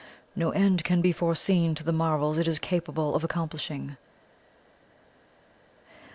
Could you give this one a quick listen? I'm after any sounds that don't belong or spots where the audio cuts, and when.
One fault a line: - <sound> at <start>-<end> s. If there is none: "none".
none